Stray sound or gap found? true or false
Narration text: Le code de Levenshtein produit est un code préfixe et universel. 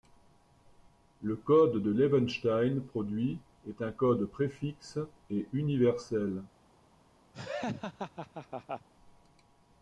true